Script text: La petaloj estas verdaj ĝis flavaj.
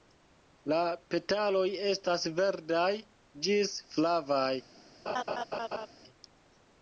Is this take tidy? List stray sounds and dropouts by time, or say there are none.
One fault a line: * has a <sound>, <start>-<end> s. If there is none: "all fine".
* has a laugh, 5.1-5.9 s